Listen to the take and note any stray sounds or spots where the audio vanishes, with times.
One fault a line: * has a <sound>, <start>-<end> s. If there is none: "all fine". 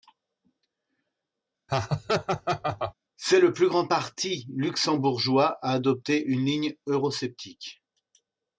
* has a laugh, 1.7-2.9 s